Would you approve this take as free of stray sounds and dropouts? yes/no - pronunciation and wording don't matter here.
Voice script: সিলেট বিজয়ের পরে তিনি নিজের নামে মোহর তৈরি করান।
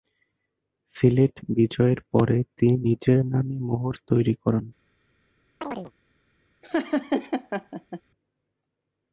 no